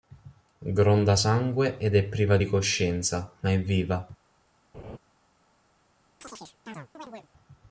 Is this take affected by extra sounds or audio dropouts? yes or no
yes